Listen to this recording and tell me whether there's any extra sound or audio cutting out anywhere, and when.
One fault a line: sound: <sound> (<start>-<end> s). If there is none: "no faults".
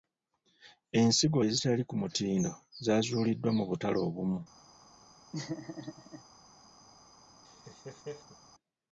sound: laugh (5.3-6.2 s)
sound: laugh (7.4-8.4 s)